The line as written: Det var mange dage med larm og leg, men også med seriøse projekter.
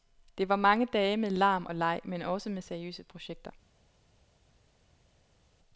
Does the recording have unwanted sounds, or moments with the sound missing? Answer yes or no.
no